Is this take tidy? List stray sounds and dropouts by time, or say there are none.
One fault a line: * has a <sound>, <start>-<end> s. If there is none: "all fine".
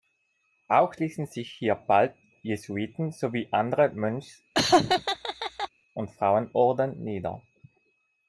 * has a laugh, 4.5-5.7 s